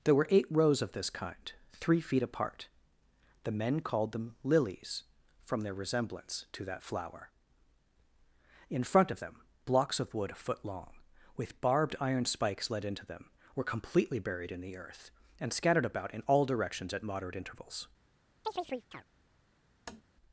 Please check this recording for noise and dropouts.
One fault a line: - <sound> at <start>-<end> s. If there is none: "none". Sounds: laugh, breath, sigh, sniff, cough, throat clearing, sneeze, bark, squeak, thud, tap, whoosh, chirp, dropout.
- chirp at 18.4-19.1 s
- tap at 19.9-20.0 s